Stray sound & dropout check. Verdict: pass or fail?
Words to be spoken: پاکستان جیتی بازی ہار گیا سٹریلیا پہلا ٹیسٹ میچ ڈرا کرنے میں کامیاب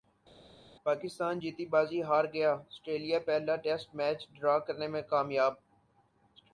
pass